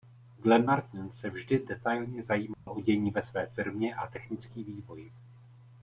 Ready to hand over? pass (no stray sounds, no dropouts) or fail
fail